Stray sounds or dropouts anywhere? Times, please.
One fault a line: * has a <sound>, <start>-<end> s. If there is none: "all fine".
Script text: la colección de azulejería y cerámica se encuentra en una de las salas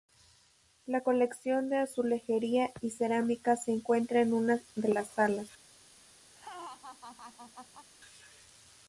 * has a laugh, 6.3-7.9 s